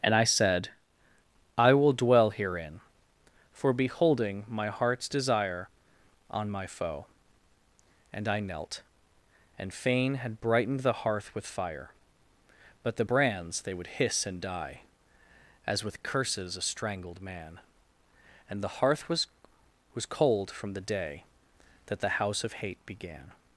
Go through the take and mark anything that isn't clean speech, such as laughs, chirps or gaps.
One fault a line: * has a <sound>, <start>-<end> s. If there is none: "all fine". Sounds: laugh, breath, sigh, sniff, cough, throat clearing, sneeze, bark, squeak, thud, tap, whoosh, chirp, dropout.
all fine